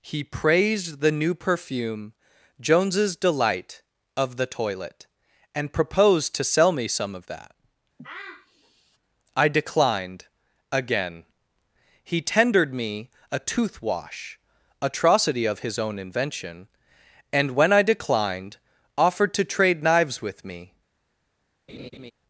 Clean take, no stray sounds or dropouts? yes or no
no